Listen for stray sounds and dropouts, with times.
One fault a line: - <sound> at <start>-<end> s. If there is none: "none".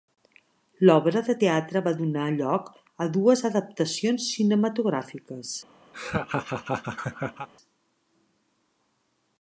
- laugh at 5.9-7.5 s